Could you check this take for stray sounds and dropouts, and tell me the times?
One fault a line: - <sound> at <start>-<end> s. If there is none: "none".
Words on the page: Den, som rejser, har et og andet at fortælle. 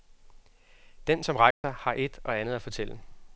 - dropout at 1.5-1.6 s